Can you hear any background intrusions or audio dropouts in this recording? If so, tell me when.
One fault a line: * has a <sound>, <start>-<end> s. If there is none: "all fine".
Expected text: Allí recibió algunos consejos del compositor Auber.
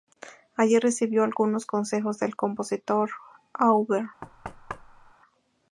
* has a thud, 4.2-5.1 s